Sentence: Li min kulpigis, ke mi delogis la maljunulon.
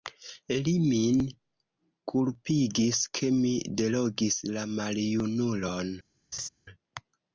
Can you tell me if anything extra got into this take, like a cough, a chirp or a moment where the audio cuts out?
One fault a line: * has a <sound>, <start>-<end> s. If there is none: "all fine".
* has a laugh, 6.3-6.5 s